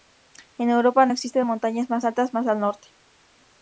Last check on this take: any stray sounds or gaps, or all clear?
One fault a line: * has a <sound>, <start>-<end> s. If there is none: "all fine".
all fine